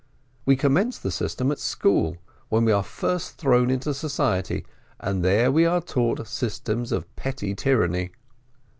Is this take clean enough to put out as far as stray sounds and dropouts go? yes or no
yes